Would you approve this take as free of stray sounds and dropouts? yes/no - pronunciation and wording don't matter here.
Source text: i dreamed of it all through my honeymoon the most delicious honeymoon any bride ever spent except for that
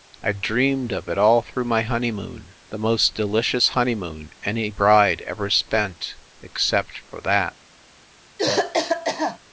no